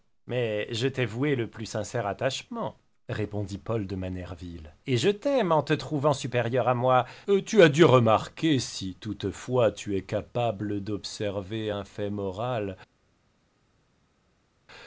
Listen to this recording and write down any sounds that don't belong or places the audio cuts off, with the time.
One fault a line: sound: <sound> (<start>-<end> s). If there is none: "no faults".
no faults